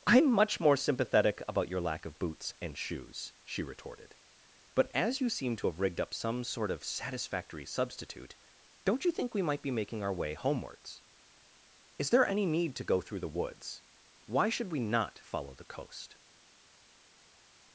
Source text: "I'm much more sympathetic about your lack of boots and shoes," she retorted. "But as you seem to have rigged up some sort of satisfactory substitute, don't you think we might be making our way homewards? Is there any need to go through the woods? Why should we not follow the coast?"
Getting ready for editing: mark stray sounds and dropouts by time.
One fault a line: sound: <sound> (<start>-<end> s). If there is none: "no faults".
no faults